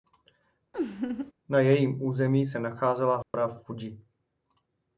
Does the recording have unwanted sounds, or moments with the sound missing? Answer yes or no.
yes